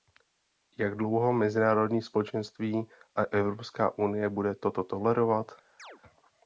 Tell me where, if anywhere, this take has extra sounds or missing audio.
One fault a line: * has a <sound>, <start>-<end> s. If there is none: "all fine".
* has a chirp, 5.8-6.0 s